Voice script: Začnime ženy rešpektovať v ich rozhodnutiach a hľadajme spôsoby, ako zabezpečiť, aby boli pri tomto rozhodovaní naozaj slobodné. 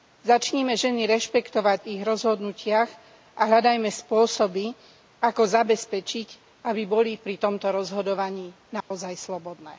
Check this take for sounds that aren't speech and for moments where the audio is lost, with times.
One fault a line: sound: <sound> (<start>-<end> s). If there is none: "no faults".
sound: dropout (8.8-8.9 s)